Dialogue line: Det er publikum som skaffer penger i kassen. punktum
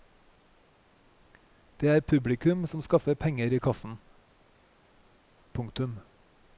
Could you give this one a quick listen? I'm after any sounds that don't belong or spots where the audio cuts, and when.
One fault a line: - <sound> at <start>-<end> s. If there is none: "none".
none